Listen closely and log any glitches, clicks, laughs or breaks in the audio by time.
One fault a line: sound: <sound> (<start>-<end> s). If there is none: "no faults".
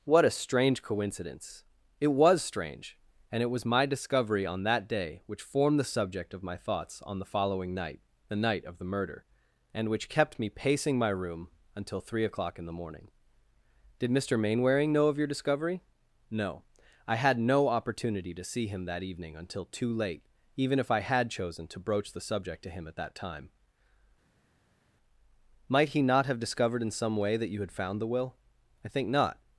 no faults